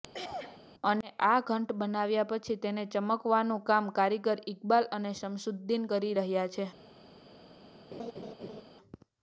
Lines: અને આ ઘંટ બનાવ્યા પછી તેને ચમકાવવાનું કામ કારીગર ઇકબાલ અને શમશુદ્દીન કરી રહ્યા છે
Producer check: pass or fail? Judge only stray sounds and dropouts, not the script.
fail